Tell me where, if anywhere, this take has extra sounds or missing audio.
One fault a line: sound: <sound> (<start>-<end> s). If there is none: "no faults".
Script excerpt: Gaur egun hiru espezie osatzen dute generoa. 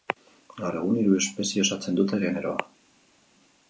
no faults